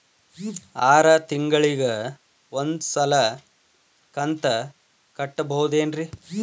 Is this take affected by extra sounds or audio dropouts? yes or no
no